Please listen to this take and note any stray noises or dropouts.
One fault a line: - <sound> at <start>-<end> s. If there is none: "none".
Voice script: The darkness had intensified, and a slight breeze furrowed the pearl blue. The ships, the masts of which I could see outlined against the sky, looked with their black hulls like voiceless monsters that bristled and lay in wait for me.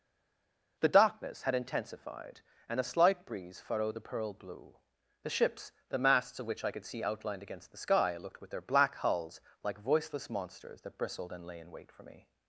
none